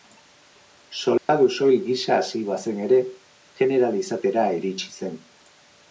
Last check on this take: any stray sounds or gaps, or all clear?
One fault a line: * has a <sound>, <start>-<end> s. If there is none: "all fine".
* has a dropout, 1.2-1.3 s